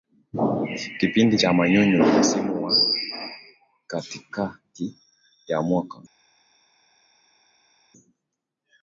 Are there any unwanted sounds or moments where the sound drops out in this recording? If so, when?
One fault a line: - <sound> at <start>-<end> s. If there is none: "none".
none